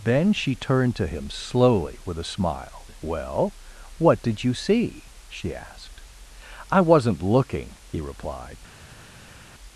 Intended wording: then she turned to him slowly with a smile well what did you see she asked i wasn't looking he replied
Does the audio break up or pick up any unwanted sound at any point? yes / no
no